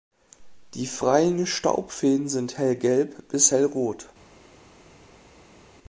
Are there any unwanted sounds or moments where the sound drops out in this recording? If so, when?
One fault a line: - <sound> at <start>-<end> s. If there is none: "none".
none